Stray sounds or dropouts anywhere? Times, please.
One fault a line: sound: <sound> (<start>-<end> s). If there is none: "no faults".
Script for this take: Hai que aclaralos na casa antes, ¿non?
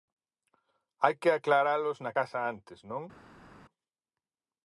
no faults